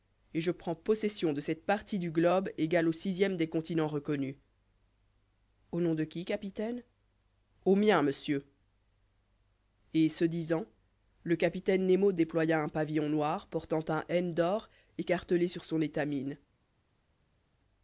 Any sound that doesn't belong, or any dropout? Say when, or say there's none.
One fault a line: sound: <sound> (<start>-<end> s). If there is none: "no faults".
no faults